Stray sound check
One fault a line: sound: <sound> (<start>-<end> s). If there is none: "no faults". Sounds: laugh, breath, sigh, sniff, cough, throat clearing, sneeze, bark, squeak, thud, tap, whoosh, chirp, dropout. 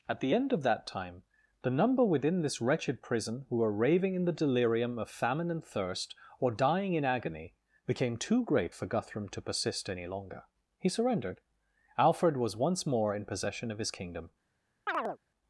sound: chirp (14.9-15.2 s)